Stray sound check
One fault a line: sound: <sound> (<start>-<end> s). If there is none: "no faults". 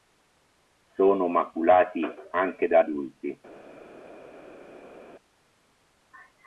no faults